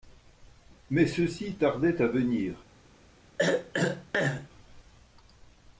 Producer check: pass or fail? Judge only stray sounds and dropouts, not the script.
fail